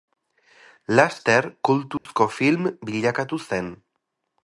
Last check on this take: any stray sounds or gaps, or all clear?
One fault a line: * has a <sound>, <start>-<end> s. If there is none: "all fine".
* has a dropout, 2.0-2.1 s